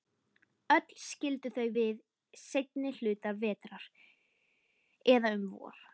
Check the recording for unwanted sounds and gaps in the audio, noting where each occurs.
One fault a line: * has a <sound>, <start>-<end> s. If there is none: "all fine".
all fine